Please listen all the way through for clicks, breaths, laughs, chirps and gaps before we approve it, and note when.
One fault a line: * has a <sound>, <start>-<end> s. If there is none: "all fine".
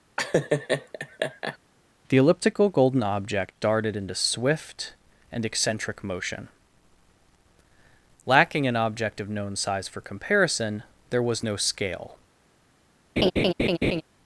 * has a laugh, 0.2-1.6 s
* has a laugh, 13.2-14.0 s